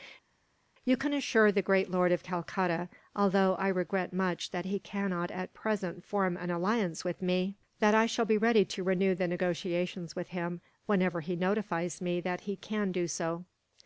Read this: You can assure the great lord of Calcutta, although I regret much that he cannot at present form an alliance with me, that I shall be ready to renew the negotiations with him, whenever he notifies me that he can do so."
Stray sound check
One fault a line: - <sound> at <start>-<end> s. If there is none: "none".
none